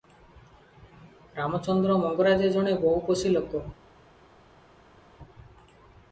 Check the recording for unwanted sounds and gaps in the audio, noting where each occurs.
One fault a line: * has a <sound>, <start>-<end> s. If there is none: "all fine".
all fine